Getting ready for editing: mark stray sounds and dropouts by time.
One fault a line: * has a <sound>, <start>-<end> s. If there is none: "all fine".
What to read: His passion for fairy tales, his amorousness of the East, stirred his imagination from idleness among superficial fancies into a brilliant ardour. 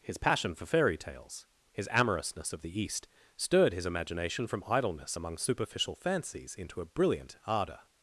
all fine